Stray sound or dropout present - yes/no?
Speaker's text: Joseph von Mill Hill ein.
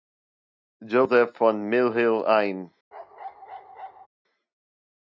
yes